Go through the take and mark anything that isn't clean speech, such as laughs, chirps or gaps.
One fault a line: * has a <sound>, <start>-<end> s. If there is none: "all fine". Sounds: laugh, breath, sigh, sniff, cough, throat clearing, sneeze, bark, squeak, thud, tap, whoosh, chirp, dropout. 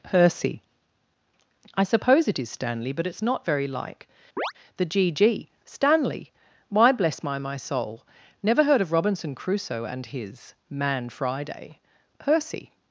* has a chirp, 4.4-4.5 s